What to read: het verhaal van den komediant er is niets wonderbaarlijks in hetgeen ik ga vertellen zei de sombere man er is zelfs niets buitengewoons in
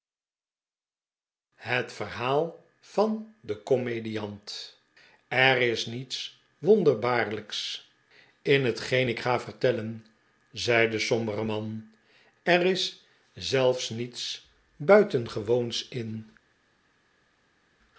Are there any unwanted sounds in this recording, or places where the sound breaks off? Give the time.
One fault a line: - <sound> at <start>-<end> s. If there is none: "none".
none